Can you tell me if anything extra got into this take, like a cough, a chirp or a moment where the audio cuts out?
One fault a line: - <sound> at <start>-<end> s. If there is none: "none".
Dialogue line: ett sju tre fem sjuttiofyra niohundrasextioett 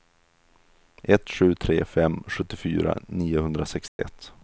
- dropout at 3.9-4.0 s